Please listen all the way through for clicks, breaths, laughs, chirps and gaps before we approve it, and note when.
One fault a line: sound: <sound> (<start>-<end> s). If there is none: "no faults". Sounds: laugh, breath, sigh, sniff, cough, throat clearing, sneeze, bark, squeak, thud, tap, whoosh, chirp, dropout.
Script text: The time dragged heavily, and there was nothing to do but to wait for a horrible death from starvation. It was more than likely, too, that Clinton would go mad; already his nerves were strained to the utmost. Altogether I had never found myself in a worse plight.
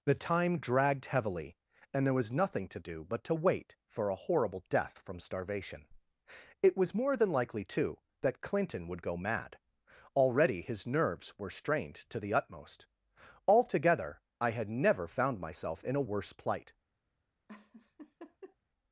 sound: laugh (17.5-18.6 s)